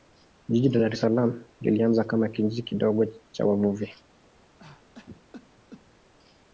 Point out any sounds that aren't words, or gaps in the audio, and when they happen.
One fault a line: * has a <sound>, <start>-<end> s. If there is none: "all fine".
* has a cough, 4.6-6.1 s